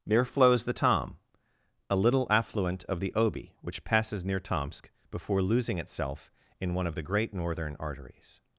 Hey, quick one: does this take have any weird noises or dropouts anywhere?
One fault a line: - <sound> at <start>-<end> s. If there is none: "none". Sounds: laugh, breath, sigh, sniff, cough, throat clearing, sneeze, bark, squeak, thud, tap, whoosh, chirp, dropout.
none